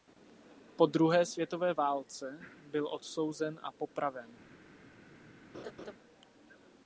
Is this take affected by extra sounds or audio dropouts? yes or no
yes